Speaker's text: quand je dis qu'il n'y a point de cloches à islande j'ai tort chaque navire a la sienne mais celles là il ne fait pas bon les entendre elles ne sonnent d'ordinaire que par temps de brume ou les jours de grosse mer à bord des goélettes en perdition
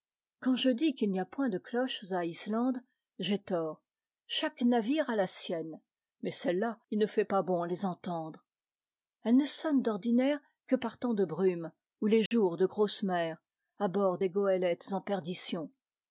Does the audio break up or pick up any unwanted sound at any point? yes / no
yes